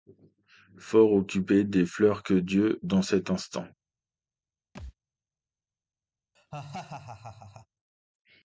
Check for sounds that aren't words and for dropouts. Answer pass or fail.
fail